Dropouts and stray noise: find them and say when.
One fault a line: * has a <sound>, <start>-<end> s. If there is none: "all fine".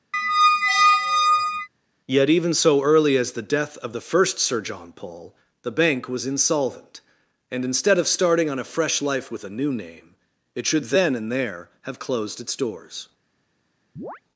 * has a squeak, 0.1-1.7 s
* has a chirp, 14.0-14.2 s